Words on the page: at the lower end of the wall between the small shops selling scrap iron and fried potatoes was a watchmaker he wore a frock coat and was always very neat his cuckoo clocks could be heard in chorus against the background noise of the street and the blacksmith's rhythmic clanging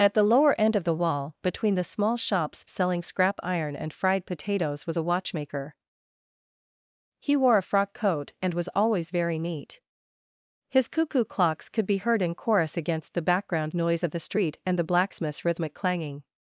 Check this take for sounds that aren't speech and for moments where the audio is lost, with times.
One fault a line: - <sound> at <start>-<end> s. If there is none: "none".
none